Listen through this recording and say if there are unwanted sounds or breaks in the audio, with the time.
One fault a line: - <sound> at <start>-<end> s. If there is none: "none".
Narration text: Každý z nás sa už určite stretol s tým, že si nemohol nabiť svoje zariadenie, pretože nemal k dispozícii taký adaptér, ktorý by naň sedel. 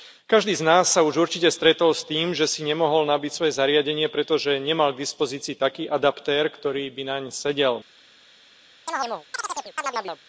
- chirp at 8.9-10.2 s